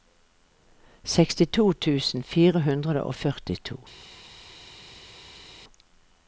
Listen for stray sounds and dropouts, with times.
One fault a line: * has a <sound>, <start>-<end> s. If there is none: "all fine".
all fine